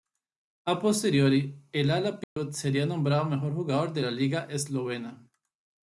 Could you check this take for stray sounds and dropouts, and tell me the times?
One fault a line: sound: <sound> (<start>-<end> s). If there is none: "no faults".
sound: dropout (2.2-2.4 s)